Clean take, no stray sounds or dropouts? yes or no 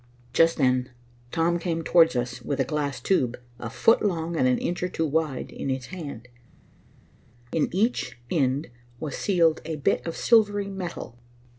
yes